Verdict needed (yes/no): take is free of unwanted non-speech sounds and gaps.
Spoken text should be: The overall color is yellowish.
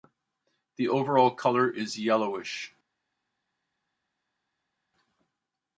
yes